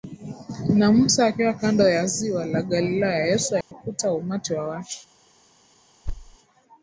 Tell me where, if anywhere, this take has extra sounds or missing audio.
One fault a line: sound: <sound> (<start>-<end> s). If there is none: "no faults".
sound: dropout (3.6-3.7 s)
sound: thud (6.1-6.4 s)